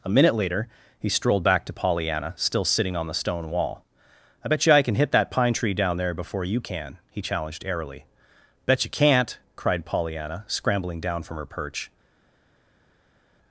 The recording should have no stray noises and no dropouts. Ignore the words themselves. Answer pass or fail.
pass